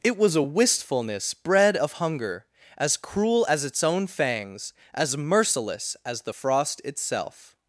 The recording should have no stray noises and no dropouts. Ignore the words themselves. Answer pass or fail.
pass